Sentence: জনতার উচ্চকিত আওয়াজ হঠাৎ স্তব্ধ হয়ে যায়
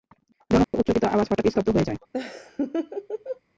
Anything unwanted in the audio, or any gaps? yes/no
yes